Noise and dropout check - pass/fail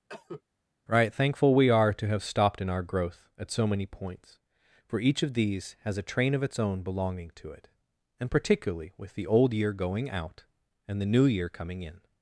fail